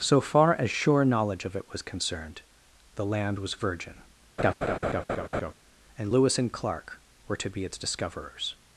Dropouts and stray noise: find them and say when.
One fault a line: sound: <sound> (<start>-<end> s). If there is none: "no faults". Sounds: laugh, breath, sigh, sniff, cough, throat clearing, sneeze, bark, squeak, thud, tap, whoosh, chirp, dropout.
sound: laugh (4.4-5.5 s)